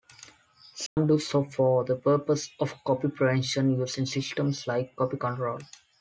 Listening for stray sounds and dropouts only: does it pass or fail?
fail